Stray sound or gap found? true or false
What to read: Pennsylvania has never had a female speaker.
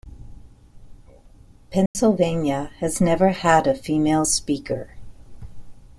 true